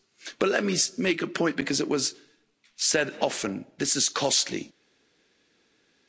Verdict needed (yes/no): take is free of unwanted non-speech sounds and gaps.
yes